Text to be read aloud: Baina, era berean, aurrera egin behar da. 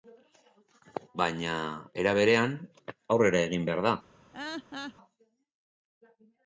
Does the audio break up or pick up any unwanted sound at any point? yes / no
yes